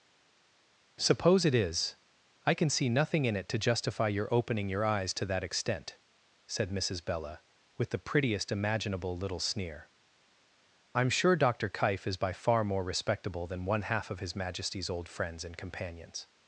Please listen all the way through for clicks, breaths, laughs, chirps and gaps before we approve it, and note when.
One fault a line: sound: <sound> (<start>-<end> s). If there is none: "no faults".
no faults